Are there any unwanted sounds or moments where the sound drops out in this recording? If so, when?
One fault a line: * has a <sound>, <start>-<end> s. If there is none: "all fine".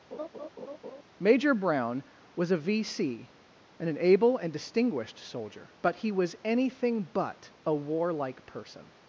* has a laugh, 0.1-1.0 s